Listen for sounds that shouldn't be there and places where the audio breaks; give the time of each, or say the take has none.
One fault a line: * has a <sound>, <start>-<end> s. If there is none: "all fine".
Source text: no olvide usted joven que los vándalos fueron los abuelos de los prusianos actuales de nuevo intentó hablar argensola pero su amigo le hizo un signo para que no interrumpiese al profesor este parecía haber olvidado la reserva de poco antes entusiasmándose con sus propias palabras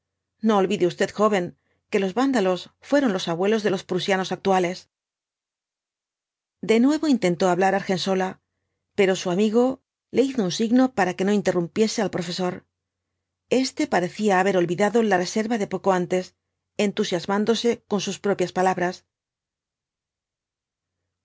all fine